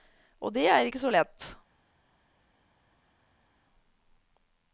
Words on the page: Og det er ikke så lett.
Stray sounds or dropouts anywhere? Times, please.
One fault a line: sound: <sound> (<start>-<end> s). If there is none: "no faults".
no faults